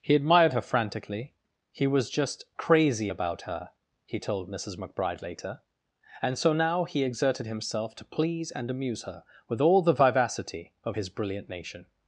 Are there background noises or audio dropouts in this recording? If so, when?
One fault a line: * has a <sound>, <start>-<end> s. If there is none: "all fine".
all fine